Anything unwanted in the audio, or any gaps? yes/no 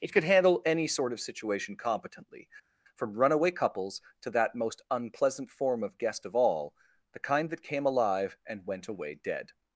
no